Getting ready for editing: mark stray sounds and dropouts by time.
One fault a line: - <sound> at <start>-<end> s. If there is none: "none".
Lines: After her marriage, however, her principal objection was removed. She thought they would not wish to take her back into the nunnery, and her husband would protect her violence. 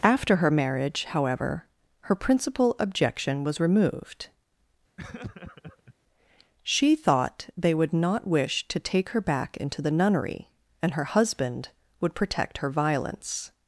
- laugh at 5.0-5.9 s